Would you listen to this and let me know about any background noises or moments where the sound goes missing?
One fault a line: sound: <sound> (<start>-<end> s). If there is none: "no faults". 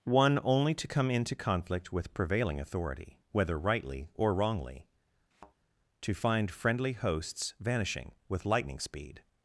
sound: thud (5.3-5.6 s)